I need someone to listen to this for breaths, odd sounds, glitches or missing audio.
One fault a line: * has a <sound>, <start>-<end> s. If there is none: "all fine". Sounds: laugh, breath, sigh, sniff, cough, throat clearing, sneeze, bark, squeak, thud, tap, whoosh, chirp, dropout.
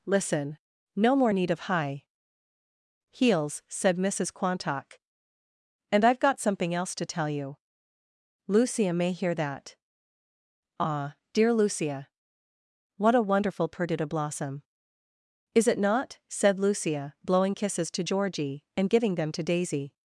all fine